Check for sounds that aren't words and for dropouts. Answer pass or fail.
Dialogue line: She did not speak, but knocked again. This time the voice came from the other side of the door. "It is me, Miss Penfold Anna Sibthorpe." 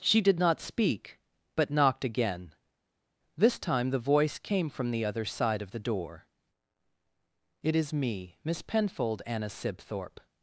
pass